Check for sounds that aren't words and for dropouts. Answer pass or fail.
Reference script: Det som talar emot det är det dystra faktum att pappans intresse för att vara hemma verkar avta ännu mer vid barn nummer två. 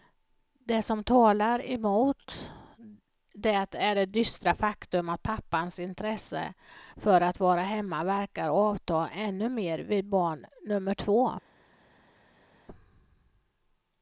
pass